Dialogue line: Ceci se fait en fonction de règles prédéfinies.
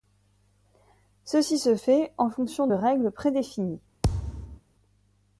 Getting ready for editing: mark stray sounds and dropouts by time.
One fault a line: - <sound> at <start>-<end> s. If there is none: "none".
- thud at 4.0-4.6 s